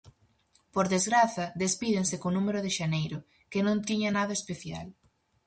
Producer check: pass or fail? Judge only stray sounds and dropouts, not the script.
pass